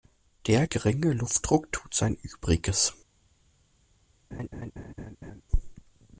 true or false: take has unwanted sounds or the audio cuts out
true